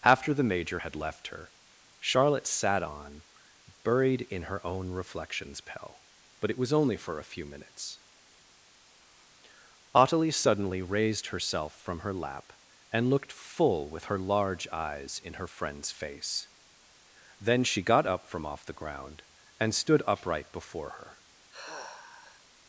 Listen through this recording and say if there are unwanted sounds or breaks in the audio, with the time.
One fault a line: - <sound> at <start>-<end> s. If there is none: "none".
- sigh at 21.5-22.5 s